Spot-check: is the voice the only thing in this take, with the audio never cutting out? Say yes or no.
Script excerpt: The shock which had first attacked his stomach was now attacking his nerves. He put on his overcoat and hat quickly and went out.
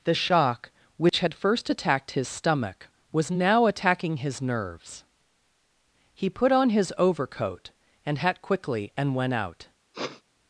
no